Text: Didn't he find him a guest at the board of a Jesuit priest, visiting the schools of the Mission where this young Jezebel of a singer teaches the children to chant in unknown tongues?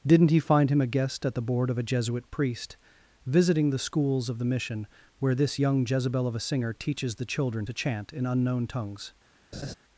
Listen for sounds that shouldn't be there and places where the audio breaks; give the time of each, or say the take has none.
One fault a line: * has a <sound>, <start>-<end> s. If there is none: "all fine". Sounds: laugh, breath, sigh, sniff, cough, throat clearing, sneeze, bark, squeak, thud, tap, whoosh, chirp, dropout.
* has a laugh, 9.5-9.7 s